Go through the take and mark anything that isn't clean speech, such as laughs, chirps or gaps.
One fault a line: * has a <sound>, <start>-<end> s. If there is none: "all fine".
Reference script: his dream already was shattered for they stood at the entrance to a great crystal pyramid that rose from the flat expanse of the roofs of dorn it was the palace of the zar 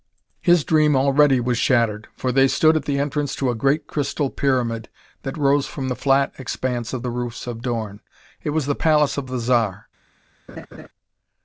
* has a laugh, 10.5-10.9 s